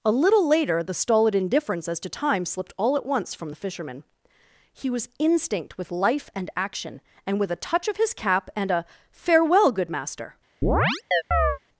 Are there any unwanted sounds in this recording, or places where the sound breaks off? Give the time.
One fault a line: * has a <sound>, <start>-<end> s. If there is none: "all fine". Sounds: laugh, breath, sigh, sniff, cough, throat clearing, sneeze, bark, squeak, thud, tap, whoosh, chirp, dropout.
* has a chirp, 10.6-11.6 s